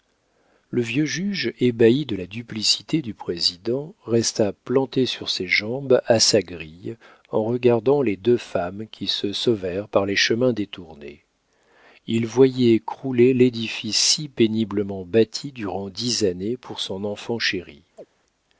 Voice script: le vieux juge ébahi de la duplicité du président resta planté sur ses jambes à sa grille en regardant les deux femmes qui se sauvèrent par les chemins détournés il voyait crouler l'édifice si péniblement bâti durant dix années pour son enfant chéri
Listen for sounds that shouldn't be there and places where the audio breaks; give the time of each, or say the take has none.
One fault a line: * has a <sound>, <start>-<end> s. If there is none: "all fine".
* has a chirp, 18.0-18.1 s